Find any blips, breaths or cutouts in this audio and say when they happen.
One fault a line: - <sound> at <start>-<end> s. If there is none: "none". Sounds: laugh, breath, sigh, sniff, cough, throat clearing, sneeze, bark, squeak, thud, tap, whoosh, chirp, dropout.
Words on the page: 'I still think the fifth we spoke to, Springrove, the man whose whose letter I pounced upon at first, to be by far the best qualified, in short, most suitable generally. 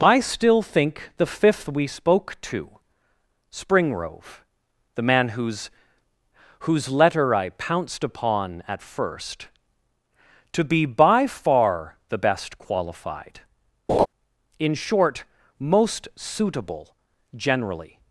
- laugh at 13.9-14.1 s